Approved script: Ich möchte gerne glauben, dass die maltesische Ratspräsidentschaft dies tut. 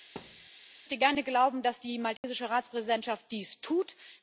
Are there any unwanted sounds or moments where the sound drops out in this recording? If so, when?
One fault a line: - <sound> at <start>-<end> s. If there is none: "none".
- thud at 0.2-0.5 s
- dropout at 2.2-2.2 s